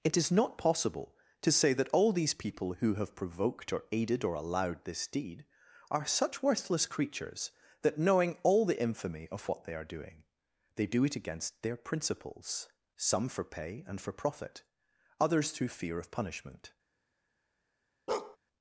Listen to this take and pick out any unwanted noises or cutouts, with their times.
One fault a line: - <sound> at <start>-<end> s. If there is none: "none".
- bark at 18.1-18.4 s